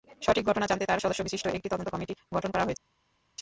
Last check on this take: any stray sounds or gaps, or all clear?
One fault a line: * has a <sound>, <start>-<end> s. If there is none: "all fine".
all fine